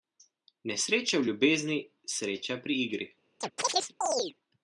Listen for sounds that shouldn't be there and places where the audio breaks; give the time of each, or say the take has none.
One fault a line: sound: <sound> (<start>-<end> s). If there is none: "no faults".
sound: chirp (3.4-4.3 s)